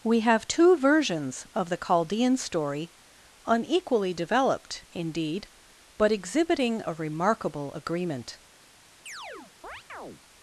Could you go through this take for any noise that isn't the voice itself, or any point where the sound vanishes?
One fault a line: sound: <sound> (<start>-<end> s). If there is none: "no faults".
sound: chirp (9.1-10.2 s)